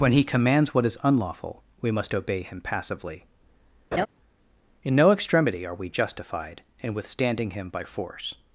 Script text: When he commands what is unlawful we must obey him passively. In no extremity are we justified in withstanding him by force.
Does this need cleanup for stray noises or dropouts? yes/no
yes